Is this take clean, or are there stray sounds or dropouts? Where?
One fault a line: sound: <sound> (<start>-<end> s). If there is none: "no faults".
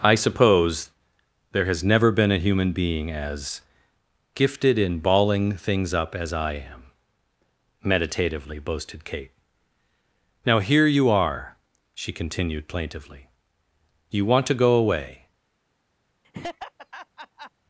sound: laugh (16.2-17.5 s)